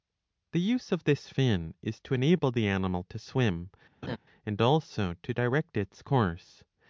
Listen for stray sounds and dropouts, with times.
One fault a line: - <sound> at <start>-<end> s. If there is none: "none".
- laugh at 4.0-4.2 s